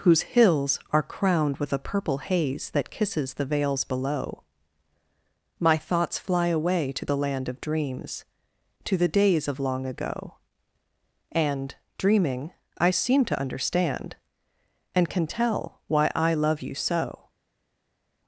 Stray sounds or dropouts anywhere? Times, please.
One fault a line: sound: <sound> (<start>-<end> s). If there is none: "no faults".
no faults